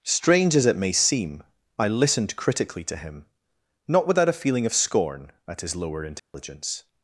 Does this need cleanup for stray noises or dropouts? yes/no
yes